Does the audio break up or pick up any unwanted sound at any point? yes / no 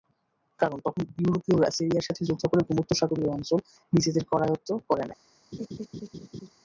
yes